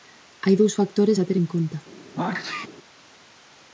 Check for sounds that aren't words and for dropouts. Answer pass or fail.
fail